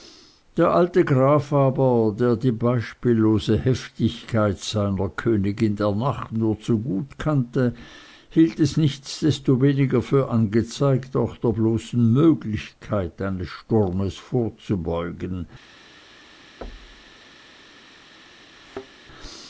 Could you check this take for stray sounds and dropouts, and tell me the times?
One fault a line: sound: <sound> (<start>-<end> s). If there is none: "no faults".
sound: thud (16.6-17.2 s)
sound: thud (18.6-18.9 s)